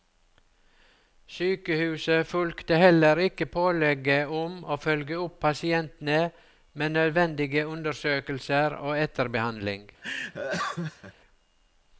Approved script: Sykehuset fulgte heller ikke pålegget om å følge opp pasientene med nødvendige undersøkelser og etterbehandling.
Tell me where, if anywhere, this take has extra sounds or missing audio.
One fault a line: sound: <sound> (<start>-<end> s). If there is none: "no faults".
sound: laugh (10.0-11.1 s)